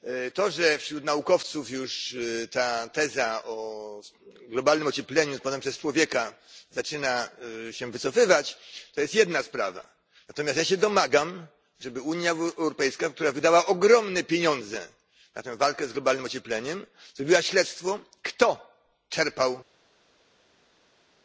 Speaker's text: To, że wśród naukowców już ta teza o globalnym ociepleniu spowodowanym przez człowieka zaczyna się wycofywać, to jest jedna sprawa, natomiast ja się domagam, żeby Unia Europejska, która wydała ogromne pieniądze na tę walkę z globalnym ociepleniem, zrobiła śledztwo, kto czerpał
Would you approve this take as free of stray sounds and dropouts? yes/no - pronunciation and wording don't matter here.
yes